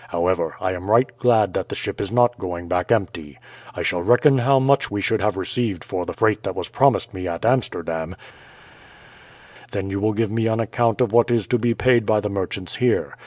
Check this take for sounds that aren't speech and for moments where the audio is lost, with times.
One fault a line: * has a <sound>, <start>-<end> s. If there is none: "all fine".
all fine